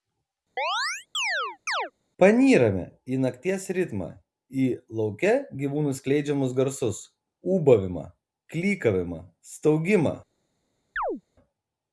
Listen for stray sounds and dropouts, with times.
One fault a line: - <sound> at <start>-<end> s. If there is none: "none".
- chirp at 0.6-1.9 s
- chirp at 11.0-11.2 s